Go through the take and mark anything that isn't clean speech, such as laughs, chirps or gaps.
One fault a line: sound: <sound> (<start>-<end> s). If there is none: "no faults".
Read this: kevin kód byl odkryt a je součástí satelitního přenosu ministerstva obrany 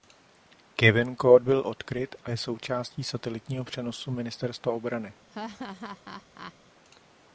sound: laugh (5.3-6.5 s)